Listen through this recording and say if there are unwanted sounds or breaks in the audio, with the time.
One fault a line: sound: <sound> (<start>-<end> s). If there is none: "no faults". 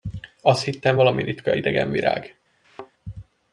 sound: thud (2.6-2.9 s)